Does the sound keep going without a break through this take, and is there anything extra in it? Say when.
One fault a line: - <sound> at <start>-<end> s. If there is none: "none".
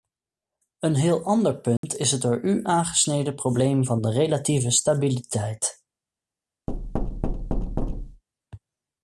- dropout at 1.8-1.8 s
- thud at 6.7-8.2 s